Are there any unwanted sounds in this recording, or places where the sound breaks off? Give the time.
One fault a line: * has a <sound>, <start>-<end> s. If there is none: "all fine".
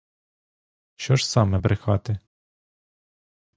all fine